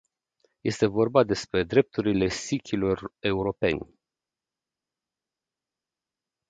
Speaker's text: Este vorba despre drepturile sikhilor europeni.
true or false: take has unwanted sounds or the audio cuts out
false